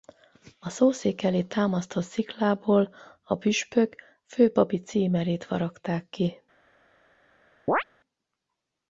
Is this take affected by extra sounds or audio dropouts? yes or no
yes